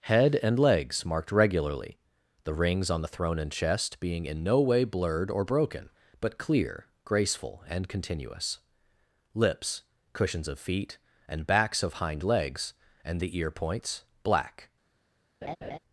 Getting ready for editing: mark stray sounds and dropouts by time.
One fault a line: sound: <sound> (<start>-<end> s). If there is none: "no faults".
sound: laugh (15.4-15.8 s)